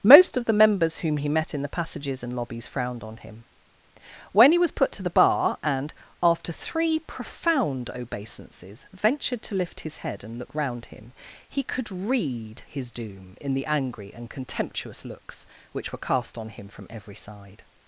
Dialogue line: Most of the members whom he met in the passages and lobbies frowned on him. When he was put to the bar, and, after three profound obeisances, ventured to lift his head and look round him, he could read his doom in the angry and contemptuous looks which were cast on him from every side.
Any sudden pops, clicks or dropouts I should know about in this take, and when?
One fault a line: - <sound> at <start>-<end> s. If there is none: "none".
none